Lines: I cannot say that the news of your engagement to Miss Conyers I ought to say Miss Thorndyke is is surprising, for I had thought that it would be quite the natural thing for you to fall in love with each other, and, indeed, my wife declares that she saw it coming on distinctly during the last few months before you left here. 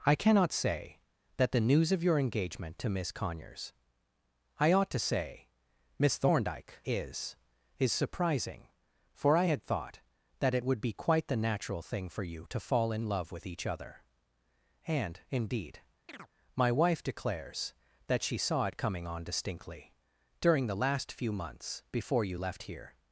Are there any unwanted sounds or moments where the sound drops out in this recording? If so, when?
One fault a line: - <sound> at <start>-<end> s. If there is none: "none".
- chirp at 16.1-16.3 s